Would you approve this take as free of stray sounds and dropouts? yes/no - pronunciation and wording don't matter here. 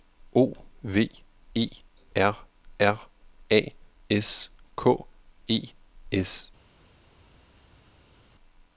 yes